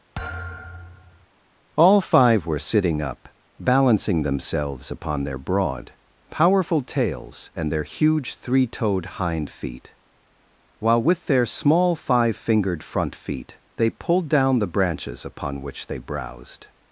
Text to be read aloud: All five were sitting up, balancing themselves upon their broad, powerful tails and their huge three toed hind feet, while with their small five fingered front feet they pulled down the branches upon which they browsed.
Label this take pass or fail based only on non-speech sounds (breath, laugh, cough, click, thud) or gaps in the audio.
fail